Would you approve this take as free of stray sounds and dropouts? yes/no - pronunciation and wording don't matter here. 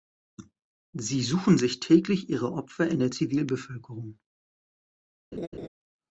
no